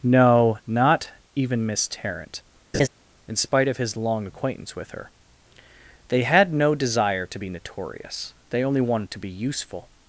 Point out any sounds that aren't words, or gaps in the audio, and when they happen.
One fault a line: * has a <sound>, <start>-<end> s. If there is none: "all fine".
* has a laugh, 2.7-2.9 s